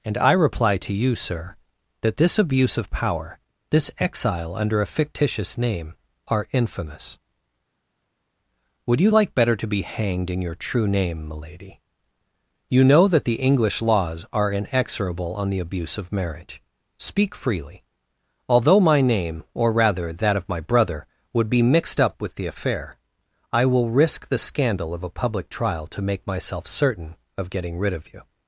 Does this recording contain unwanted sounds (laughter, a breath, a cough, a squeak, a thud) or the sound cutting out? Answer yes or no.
no